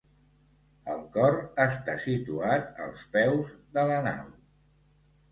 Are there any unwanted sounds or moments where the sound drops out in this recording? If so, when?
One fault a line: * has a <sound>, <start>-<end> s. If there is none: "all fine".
all fine